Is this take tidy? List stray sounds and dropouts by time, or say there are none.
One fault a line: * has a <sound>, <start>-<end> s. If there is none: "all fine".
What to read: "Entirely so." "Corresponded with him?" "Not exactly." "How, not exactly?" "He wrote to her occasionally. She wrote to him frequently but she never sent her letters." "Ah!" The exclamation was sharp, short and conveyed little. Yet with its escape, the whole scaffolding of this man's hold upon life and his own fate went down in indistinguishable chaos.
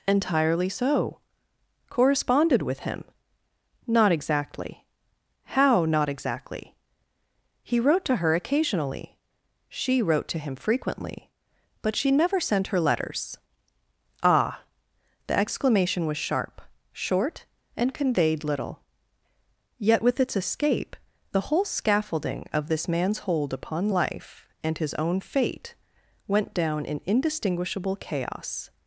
all fine